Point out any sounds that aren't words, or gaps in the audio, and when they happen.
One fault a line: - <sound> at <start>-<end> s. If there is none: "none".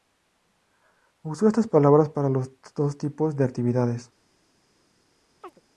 - chirp at 5.4-5.6 s